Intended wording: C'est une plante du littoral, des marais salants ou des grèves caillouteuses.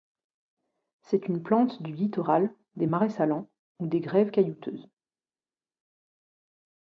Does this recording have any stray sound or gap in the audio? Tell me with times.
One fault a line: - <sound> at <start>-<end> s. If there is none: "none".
none